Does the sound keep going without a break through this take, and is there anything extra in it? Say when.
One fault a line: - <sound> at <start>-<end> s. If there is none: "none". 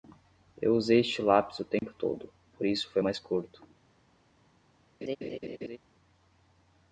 - dropout at 1.8-1.8 s
- laugh at 5.0-5.8 s